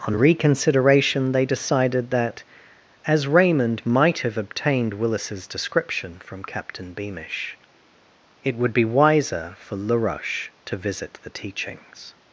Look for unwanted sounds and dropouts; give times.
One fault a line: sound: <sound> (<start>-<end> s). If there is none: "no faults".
no faults